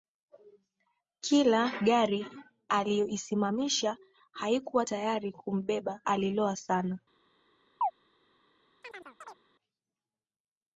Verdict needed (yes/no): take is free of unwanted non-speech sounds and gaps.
no